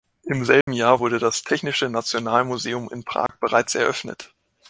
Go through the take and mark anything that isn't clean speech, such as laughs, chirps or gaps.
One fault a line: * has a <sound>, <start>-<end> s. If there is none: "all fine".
* has a dropout, 0.6-0.7 s
* has a dropout, 3.3-3.3 s